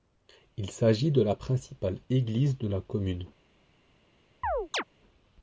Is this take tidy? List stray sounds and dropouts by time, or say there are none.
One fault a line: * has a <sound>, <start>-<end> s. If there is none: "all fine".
* has a chirp, 4.4-4.8 s